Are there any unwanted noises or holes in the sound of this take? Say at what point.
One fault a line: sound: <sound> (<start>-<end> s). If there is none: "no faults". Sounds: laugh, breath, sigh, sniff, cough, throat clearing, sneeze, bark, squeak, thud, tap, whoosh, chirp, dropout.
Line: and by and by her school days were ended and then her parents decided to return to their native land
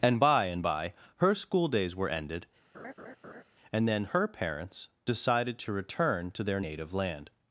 sound: laugh (2.7-3.4 s)